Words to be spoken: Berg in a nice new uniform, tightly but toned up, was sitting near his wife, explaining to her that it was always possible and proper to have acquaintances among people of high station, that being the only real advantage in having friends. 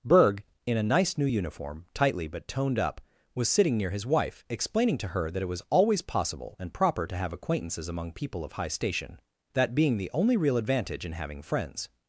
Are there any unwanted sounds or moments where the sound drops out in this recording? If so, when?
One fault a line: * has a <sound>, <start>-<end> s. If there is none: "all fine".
all fine